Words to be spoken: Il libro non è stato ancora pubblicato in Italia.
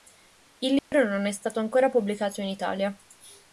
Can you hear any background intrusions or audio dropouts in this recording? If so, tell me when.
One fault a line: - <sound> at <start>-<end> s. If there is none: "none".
- dropout at 0.8-0.9 s